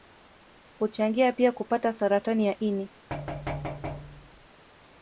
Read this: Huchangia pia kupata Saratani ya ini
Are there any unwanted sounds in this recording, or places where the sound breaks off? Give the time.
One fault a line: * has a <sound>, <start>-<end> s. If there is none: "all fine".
* has a thud, 3.1-4.5 s